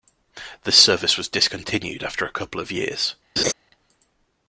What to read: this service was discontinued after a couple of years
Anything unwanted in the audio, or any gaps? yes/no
yes